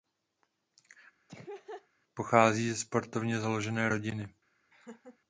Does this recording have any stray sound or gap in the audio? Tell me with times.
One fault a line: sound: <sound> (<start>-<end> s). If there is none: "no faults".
sound: laugh (1.3-1.9 s)
sound: laugh (4.7-5.2 s)